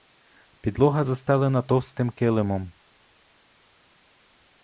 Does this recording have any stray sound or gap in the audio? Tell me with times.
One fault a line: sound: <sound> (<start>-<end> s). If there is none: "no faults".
no faults